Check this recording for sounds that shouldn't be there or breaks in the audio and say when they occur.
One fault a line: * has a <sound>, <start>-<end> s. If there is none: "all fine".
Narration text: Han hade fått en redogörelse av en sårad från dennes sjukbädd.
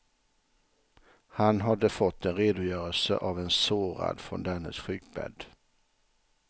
all fine